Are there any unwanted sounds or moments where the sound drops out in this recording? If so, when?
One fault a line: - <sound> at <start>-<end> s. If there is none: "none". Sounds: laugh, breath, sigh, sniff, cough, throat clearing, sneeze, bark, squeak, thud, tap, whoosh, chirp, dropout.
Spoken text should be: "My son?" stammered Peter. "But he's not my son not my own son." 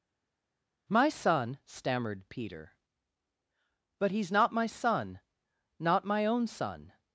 none